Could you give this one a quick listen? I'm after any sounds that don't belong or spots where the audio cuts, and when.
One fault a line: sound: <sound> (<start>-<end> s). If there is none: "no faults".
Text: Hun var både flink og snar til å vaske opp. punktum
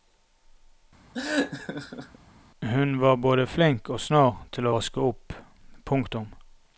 sound: laugh (1.1-2.2 s)